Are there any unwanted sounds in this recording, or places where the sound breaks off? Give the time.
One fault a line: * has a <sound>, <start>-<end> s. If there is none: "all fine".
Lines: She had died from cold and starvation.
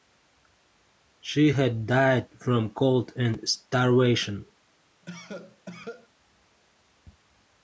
* has a cough, 5.0-6.1 s